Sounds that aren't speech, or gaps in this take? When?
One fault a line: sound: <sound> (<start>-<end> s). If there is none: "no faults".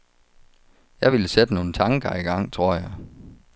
no faults